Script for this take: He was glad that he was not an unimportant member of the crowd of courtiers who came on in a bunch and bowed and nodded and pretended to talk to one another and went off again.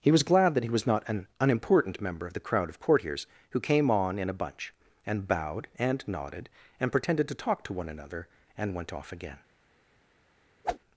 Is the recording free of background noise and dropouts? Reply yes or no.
no